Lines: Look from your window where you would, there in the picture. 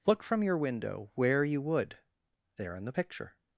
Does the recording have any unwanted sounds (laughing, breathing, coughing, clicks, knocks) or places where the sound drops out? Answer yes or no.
no